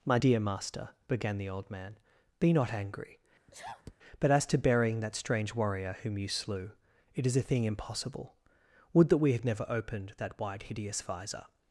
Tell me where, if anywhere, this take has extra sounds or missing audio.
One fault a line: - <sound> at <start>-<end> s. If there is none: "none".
- sneeze at 3.5-4.0 s